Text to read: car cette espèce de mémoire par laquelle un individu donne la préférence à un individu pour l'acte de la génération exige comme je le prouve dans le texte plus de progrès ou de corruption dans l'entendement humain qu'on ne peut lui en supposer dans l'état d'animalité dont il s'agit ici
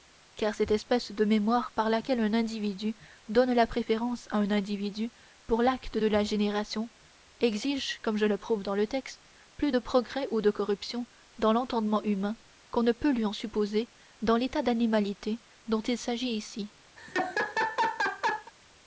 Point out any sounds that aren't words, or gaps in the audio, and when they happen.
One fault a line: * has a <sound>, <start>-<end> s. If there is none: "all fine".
* has a laugh, 17.0-18.5 s